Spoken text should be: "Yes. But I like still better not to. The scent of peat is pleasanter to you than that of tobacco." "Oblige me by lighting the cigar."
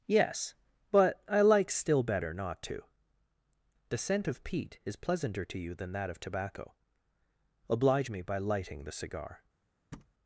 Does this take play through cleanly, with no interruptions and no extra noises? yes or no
no